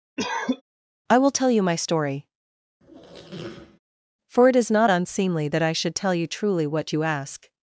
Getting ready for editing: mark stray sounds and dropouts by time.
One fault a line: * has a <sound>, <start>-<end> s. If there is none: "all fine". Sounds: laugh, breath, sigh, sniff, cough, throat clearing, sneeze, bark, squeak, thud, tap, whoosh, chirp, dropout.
* has a cough, 0.2-0.6 s
* has a squeak, 2.8-3.8 s